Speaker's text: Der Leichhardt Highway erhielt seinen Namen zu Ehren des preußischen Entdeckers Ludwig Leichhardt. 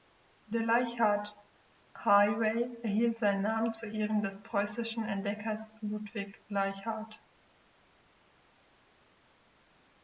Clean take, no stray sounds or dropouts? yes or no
yes